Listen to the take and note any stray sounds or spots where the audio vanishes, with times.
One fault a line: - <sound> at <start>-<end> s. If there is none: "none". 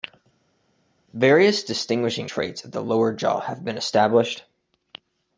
none